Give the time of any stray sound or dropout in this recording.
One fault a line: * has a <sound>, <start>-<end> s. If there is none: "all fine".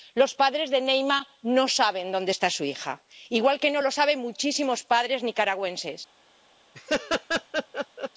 * has a laugh, 6.7-8.1 s